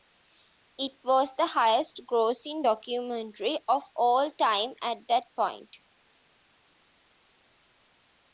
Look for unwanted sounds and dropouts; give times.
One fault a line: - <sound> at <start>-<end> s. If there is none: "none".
none